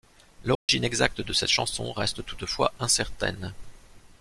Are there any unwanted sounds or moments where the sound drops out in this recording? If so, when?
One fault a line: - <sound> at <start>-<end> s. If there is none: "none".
- dropout at 0.5-0.7 s